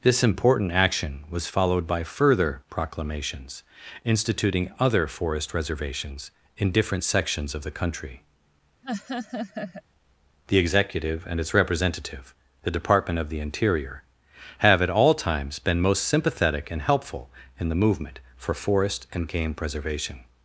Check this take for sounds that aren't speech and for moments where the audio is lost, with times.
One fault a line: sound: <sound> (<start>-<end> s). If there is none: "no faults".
sound: laugh (8.8-9.8 s)